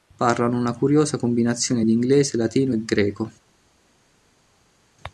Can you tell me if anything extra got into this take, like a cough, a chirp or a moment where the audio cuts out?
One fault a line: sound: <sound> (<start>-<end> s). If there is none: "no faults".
no faults